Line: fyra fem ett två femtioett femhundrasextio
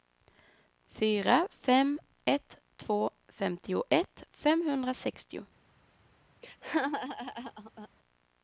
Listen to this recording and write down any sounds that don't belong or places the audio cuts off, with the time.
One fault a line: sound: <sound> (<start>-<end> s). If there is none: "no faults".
sound: laugh (6.4-7.9 s)